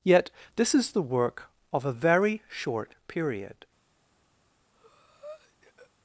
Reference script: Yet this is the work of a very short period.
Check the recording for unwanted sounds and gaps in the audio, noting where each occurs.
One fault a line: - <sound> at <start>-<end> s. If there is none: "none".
- breath at 4.7-5.9 s